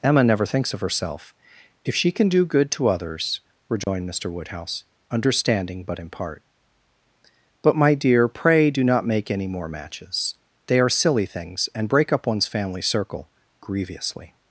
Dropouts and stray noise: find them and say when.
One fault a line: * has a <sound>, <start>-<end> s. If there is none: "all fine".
* has a dropout, 3.8-3.9 s